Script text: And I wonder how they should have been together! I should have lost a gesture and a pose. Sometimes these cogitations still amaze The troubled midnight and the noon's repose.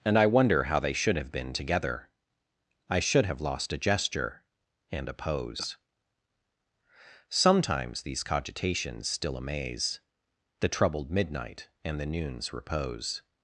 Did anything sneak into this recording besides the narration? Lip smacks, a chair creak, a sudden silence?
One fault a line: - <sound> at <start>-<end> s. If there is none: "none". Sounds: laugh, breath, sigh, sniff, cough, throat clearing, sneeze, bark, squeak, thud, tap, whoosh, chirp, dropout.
none